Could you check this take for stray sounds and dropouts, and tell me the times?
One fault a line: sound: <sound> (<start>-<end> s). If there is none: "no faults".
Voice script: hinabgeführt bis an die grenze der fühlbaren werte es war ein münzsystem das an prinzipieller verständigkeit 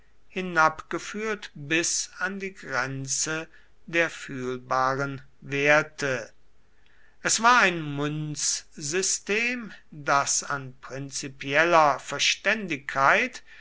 no faults